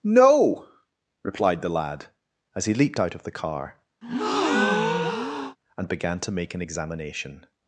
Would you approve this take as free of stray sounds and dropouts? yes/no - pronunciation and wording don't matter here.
no